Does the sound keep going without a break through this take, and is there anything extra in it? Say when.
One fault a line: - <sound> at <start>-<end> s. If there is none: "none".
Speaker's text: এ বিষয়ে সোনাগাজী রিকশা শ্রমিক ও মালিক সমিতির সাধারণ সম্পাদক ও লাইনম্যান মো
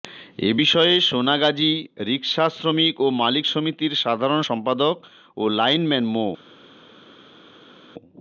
none